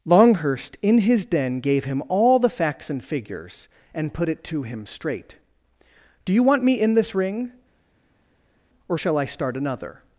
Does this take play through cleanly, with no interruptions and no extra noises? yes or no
yes